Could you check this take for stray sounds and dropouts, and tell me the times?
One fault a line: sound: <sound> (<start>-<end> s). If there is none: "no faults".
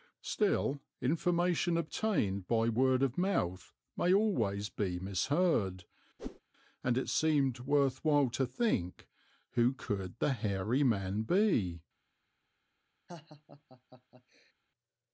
sound: whoosh (6.2-6.4 s)
sound: laugh (13.1-14.5 s)